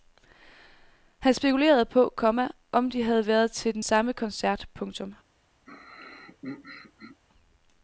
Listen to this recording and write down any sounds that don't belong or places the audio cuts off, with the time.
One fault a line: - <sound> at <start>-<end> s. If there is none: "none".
- throat clearing at 5.7-7.2 s